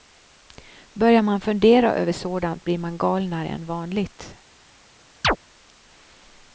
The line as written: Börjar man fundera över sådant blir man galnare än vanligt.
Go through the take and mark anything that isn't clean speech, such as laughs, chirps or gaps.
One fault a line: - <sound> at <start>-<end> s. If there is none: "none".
- chirp at 5.2-5.4 s